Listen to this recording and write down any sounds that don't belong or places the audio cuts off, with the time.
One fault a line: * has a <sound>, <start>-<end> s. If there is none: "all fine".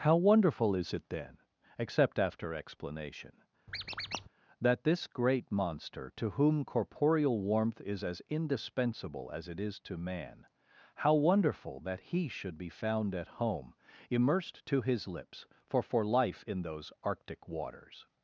* has a squeak, 3.7-4.3 s